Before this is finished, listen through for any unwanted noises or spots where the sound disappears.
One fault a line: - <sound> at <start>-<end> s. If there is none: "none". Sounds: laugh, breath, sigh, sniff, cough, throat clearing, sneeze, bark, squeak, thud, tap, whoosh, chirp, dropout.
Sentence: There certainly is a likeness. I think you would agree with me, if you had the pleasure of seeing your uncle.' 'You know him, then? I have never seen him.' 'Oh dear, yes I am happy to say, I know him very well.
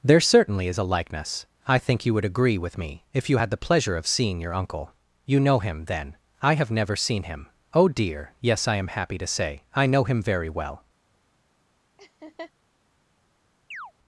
- laugh at 12.0-12.5 s
- chirp at 13.7-13.9 s